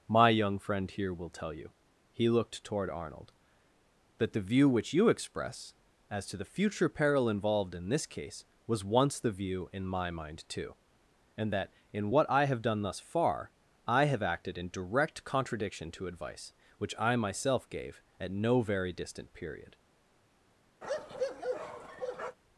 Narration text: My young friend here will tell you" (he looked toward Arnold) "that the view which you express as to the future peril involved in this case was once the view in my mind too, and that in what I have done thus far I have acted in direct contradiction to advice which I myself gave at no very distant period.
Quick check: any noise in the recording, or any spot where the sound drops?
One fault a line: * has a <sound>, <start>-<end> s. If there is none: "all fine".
* has a bark, 20.8-22.4 s